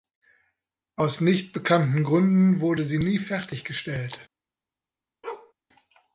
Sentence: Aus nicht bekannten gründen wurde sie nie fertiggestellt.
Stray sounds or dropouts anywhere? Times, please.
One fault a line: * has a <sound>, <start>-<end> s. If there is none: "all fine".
* has a bark, 5.2-5.5 s